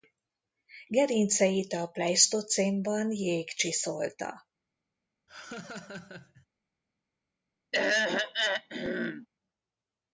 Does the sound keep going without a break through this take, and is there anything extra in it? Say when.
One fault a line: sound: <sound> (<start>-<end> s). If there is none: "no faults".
sound: laugh (5.3-6.5 s)
sound: throat clearing (7.7-9.3 s)